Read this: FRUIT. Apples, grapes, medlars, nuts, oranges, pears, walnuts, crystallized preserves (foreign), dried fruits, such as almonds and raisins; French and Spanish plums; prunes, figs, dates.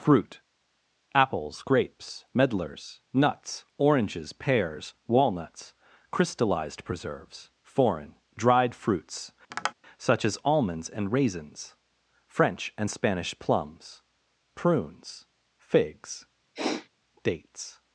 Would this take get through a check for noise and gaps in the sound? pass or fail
fail